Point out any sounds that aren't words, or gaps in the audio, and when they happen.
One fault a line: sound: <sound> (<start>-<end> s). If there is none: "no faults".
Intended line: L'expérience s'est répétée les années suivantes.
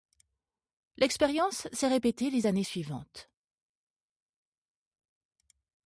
no faults